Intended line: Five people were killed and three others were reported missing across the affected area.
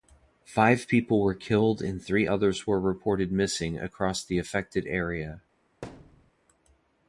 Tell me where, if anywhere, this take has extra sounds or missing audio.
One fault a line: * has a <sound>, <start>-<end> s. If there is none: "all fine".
* has a thud, 5.8-6.3 s